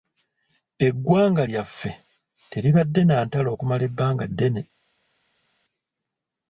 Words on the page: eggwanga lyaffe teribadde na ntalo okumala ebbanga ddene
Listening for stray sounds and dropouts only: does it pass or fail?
pass